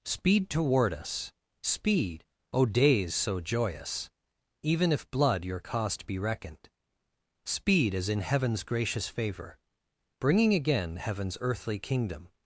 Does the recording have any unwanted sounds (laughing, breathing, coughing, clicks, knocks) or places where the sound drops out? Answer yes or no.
no